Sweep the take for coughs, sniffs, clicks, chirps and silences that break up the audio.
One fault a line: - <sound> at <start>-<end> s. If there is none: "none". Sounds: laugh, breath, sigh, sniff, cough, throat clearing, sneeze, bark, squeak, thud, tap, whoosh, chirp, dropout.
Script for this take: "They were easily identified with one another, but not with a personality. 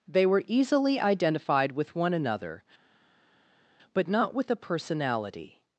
none